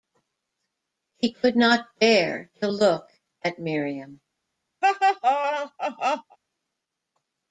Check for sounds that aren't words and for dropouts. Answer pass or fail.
fail